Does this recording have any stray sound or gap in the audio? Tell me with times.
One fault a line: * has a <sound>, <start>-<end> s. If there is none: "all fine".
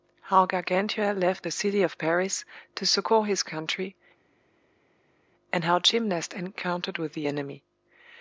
all fine